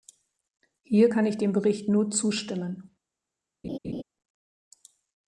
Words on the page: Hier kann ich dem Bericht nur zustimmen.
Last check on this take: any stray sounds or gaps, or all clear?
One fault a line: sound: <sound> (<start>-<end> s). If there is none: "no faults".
sound: laugh (3.6-4.0 s)